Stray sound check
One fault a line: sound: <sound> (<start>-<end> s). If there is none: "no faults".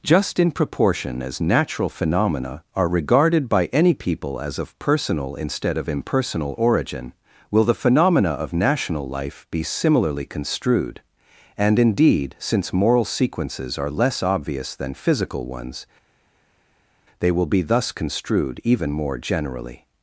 no faults